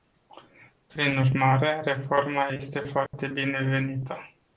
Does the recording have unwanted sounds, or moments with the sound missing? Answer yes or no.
yes